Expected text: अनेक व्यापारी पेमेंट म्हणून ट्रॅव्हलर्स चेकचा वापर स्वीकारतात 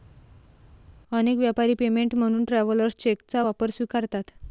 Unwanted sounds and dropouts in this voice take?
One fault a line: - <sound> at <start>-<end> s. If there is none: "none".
none